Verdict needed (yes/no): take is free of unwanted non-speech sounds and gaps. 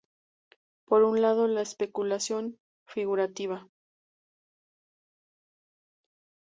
yes